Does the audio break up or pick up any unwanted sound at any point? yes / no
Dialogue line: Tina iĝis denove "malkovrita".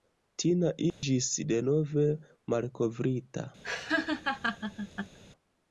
yes